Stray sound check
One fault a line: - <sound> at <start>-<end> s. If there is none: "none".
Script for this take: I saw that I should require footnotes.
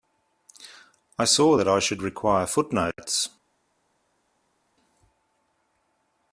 none